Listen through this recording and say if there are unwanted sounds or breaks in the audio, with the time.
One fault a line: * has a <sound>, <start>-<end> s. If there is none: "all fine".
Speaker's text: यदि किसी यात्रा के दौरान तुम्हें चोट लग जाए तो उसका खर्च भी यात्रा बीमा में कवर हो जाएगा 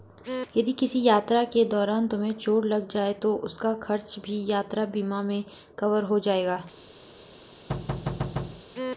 * has a thud, 7.7-8.6 s